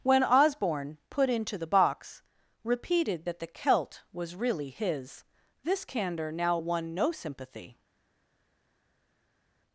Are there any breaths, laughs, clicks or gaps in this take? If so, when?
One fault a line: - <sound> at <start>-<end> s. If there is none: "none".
none